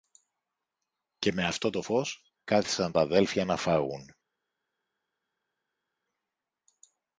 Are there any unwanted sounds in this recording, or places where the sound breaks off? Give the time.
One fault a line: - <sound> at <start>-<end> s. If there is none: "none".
none